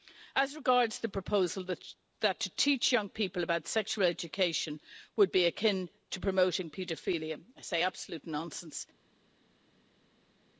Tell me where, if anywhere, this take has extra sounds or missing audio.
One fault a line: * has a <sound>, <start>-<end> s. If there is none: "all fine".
all fine